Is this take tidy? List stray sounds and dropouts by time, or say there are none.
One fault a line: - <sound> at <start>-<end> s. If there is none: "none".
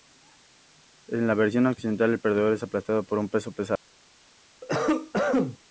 - cough at 4.6-5.6 s